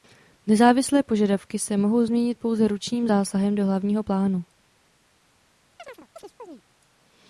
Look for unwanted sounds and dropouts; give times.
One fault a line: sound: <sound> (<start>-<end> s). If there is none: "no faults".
sound: chirp (5.8-6.6 s)